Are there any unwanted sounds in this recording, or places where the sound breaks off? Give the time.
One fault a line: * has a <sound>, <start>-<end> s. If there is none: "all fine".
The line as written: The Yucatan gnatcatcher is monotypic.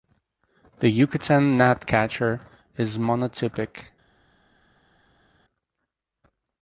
all fine